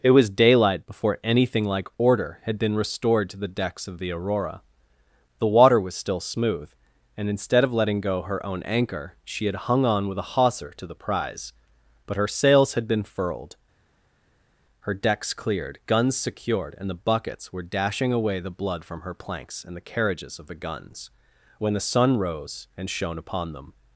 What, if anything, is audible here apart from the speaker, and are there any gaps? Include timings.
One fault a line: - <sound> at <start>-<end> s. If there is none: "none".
none